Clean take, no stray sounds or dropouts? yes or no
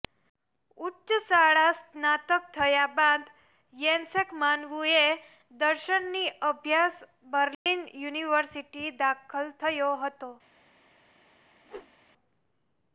no